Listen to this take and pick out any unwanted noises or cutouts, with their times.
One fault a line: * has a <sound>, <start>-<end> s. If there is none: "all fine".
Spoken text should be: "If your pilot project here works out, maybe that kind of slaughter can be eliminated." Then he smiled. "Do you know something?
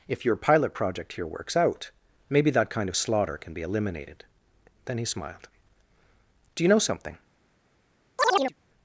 * has a chirp, 8.2-8.5 s